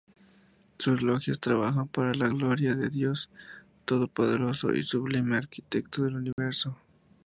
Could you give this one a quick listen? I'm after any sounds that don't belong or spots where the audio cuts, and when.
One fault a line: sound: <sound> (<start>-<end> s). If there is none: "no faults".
sound: dropout (6.3-6.4 s)